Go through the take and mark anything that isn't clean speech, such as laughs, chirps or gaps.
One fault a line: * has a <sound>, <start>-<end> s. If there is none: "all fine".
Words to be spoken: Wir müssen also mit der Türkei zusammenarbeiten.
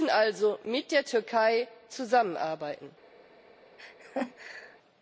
* has a laugh, 3.8-4.8 s